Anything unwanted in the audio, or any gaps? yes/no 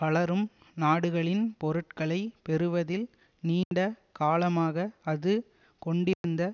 yes